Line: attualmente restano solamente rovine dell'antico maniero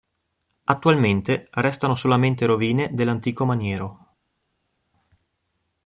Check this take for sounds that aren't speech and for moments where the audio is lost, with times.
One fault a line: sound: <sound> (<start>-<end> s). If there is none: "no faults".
no faults